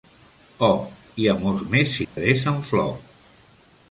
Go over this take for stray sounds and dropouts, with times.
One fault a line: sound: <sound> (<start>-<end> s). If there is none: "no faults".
sound: dropout (2.0-2.2 s)